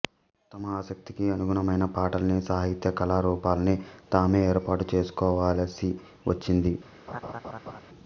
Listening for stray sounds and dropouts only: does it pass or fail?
fail